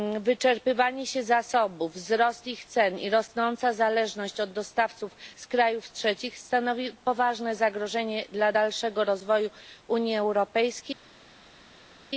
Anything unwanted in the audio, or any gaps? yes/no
no